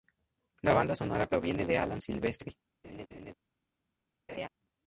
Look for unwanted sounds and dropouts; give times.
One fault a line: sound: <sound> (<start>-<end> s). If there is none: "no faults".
sound: laugh (2.8-3.3 s)
sound: laugh (4.3-4.5 s)